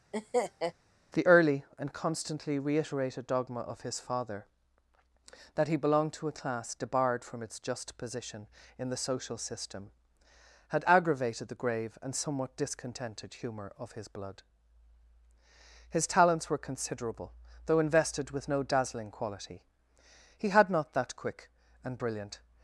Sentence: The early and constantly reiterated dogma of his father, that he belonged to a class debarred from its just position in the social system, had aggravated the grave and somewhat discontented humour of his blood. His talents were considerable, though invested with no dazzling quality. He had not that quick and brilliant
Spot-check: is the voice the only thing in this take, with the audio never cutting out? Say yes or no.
no